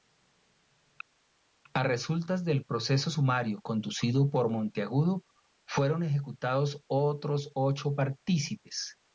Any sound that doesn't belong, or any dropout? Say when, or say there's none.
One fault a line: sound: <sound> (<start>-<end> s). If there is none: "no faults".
no faults